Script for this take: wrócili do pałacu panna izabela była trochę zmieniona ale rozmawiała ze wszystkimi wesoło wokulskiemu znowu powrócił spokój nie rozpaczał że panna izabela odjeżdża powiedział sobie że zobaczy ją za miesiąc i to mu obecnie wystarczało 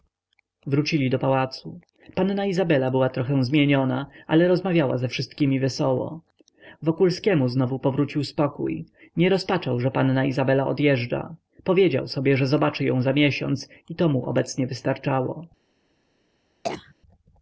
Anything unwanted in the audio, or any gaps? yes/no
yes